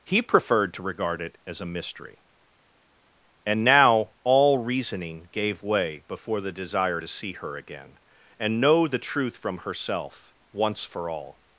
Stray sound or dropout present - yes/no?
no